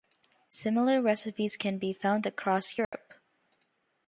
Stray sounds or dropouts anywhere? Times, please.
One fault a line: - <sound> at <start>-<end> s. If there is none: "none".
- dropout at 2.8-2.9 s